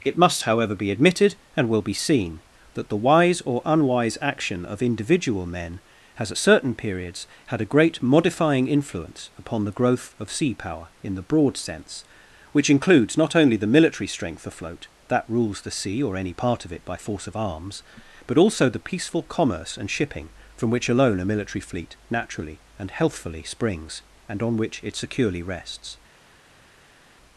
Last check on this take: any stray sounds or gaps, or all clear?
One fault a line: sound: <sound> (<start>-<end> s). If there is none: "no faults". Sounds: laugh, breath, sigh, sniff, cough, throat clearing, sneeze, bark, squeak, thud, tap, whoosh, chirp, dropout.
no faults